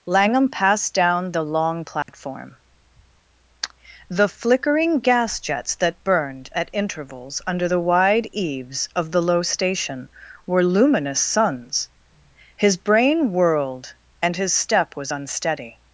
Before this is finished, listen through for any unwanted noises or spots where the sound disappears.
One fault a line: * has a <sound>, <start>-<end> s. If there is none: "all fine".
* has a dropout, 2.0-2.1 s